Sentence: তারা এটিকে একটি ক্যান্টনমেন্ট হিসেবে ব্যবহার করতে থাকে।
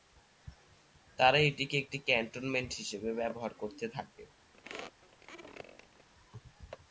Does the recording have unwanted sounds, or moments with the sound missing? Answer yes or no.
yes